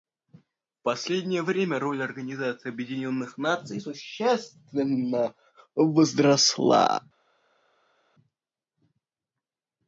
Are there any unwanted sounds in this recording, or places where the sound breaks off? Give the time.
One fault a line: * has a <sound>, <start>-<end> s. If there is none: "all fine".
all fine